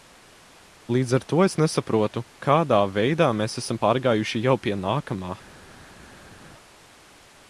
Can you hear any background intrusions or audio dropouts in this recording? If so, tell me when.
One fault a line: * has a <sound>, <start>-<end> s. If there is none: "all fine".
all fine